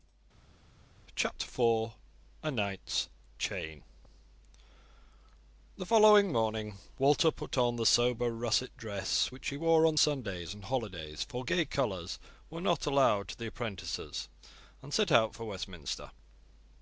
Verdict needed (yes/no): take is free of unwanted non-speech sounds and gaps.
yes